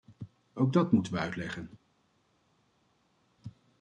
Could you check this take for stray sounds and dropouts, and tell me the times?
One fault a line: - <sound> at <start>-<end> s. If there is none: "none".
none